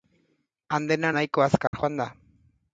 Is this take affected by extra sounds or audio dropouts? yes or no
yes